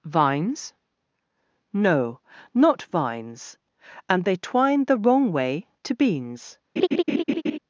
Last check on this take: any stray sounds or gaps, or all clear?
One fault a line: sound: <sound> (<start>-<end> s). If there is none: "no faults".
sound: laugh (6.8-7.6 s)